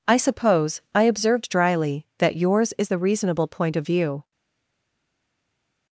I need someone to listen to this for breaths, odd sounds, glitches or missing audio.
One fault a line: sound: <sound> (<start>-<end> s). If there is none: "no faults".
no faults